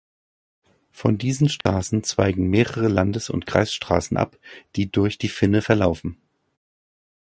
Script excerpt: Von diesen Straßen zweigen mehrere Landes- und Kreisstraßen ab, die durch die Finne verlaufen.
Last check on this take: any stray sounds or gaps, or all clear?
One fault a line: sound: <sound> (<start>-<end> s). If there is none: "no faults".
sound: dropout (1.6-1.7 s)